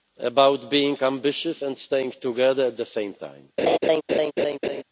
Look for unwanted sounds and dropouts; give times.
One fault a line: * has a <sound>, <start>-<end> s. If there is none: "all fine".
* has a laugh, 3.6-4.8 s